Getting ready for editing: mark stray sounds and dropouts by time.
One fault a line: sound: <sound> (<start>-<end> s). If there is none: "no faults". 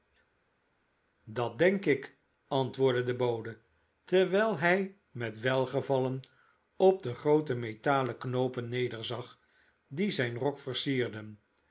no faults